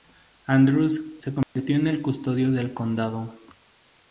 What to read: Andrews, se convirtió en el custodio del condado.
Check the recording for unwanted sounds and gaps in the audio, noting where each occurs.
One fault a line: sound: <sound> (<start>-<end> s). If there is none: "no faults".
sound: dropout (1.4-1.6 s)